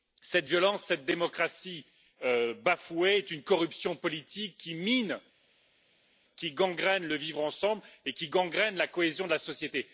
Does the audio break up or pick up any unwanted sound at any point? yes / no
no